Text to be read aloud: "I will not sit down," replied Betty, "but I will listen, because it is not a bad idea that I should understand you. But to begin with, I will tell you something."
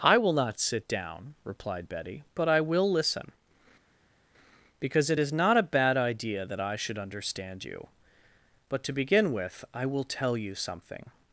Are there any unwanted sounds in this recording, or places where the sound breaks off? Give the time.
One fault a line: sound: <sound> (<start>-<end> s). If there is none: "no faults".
no faults